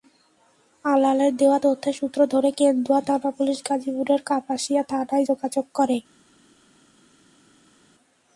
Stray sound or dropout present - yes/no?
no